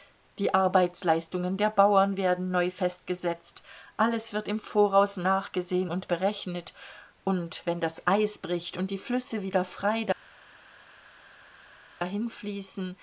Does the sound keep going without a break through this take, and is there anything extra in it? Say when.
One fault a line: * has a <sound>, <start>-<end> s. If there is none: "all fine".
all fine